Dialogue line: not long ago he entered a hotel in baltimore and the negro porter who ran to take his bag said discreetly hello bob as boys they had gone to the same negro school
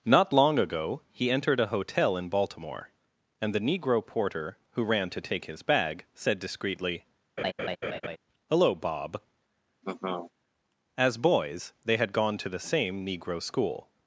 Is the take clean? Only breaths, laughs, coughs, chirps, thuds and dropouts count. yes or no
no